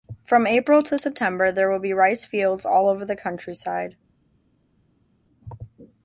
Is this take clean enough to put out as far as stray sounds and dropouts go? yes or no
yes